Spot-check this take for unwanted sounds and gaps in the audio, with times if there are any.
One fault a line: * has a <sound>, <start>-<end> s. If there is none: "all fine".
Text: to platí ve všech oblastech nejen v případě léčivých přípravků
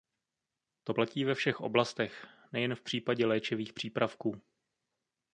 all fine